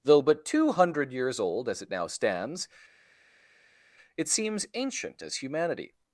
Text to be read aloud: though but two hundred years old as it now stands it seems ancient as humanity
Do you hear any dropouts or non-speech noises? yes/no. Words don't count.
no